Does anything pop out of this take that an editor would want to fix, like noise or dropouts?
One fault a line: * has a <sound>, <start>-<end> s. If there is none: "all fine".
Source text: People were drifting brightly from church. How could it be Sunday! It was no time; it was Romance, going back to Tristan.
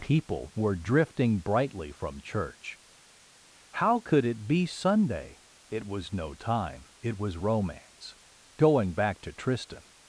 all fine